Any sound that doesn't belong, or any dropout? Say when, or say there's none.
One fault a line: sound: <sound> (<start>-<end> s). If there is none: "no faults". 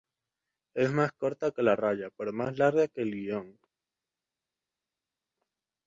no faults